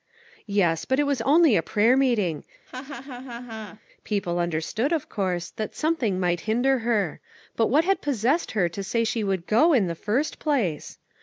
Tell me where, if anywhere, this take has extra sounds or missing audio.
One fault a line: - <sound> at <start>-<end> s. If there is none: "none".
- laugh at 2.7-3.8 s